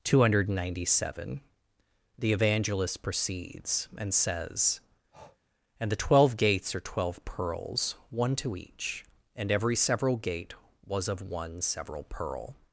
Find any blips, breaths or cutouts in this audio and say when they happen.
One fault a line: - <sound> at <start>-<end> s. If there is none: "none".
- breath at 5.1-5.4 s